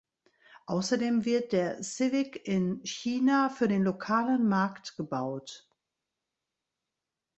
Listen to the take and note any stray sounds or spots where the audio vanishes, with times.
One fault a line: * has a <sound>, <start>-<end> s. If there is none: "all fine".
all fine